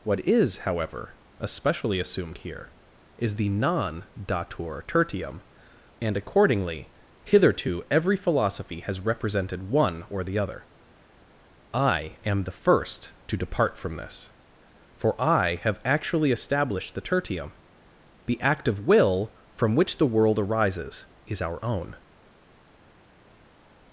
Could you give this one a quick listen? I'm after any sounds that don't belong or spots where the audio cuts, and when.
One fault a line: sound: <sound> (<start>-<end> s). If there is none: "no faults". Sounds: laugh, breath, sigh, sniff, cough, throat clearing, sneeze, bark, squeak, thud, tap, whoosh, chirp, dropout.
no faults